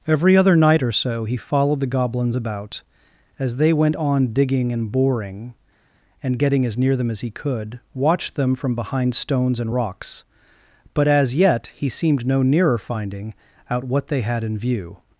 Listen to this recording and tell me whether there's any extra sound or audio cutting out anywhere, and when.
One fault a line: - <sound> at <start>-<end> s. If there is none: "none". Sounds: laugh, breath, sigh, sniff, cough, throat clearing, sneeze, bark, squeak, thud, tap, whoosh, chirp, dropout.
none